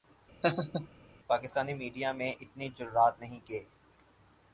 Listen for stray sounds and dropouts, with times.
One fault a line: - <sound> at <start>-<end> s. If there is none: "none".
- laugh at 0.4-0.9 s